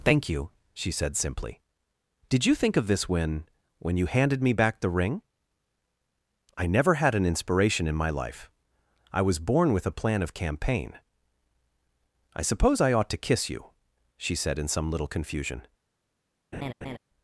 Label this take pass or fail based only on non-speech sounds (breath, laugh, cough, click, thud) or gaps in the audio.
fail